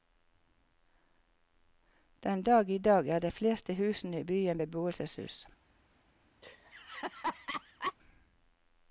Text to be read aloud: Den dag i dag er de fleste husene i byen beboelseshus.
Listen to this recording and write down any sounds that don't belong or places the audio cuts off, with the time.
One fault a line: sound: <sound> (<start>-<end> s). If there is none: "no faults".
sound: laugh (6.4-7.9 s)